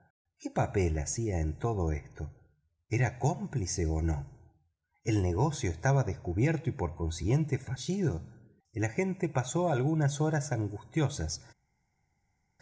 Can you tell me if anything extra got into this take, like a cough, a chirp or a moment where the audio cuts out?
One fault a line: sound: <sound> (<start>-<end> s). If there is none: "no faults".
no faults